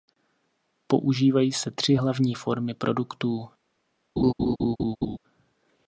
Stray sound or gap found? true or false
true